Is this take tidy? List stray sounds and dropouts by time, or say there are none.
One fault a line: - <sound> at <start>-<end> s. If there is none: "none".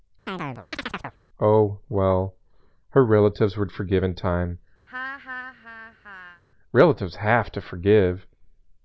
- chirp at 0.3-1.2 s
- laugh at 4.9-6.4 s